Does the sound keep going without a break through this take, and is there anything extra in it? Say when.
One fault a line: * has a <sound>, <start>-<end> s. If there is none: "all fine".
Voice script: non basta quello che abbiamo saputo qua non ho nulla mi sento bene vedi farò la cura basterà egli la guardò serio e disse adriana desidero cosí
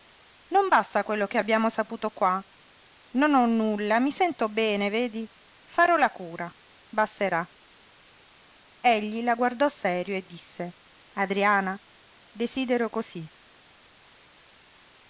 all fine